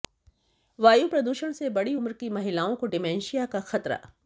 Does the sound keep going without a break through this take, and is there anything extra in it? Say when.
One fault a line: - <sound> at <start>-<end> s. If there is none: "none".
none